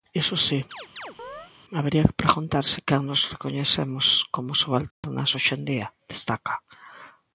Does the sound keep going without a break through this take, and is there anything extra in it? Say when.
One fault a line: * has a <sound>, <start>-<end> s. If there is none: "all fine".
* has a chirp, 0.7-1.5 s
* has a dropout, 4.9-5.0 s